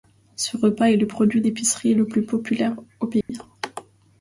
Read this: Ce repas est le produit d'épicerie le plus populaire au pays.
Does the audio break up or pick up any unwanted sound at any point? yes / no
yes